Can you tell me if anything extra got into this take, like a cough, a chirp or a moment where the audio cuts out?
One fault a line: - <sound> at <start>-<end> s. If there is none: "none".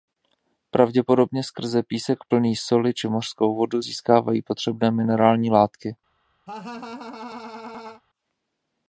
- laugh at 6.5-8.0 s